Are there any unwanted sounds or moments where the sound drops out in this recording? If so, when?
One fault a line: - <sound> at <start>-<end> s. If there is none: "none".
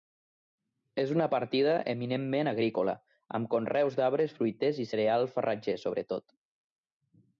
none